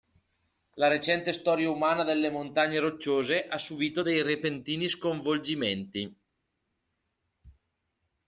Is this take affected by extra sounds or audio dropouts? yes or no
no